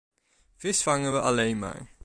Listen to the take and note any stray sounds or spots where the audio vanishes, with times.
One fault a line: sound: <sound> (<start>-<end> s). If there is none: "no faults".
no faults